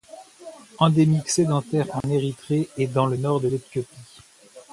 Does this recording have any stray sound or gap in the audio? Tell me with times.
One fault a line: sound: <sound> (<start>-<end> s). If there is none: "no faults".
sound: dropout (2.0-2.0 s)